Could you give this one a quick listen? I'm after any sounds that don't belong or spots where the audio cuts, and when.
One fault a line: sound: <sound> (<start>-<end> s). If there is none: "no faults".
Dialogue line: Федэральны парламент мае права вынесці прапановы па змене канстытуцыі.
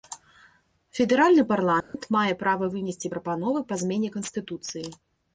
sound: dropout (1.8-1.9 s)